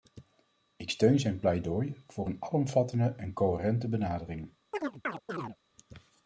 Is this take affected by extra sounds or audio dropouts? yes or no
yes